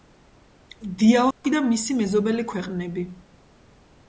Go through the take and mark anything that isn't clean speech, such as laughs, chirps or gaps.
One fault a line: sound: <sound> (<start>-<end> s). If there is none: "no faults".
sound: dropout (1.3-1.4 s)